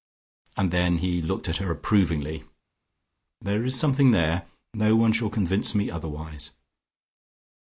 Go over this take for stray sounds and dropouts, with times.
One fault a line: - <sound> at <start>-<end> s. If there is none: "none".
none